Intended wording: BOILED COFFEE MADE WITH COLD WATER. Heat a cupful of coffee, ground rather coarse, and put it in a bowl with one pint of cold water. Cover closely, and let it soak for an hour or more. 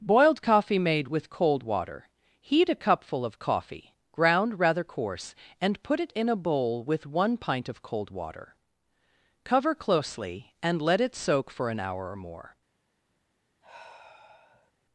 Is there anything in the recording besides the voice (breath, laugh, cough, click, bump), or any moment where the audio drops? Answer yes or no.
yes